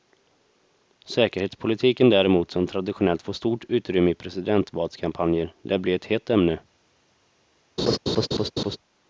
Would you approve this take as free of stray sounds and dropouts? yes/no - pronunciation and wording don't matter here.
no